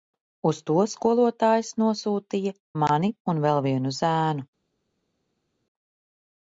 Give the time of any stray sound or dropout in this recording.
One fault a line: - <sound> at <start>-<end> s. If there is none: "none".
none